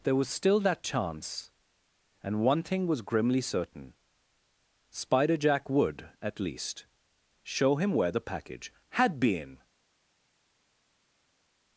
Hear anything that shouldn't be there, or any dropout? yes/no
no